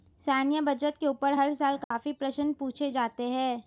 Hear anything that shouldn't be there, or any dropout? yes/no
yes